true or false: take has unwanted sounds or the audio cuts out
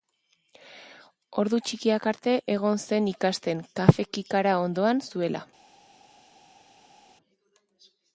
false